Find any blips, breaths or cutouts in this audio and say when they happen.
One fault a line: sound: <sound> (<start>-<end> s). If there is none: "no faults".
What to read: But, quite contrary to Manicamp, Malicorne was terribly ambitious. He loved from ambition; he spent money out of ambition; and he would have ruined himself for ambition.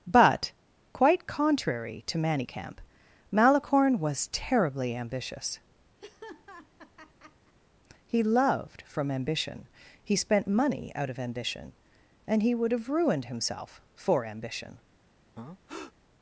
sound: laugh (6.0-7.5 s)
sound: breath (15.4-15.9 s)